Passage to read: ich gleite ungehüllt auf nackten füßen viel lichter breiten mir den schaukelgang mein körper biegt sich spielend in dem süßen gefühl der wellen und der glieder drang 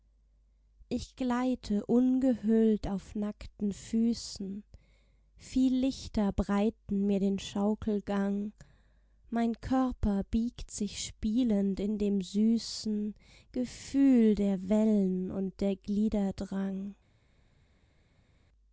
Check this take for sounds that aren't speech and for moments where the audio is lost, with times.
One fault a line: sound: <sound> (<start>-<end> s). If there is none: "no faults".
no faults